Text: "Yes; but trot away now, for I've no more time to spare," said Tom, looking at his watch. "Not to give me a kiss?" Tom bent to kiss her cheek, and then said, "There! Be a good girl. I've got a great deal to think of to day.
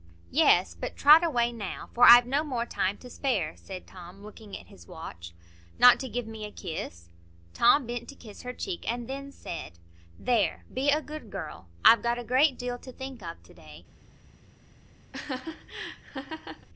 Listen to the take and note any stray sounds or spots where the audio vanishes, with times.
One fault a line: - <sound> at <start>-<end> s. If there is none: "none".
- laugh at 15.1-16.7 s